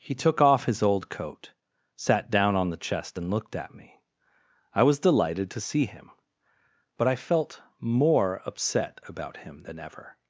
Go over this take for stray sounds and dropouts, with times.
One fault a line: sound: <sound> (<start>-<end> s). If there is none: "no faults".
no faults